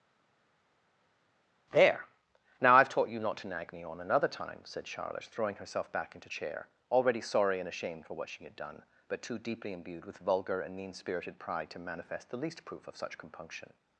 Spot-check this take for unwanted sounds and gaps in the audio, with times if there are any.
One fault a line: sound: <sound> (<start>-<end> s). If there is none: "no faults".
no faults